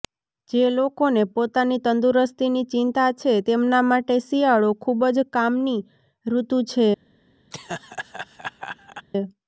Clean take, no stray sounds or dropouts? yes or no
no